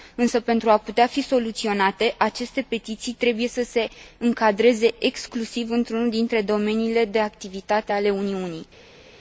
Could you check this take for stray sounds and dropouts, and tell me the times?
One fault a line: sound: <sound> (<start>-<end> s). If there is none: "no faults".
no faults